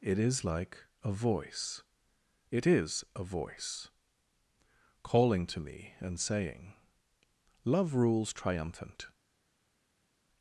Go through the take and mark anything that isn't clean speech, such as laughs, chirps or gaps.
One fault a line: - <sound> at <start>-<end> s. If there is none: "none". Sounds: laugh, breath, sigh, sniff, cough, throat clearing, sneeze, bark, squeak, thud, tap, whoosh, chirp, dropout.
none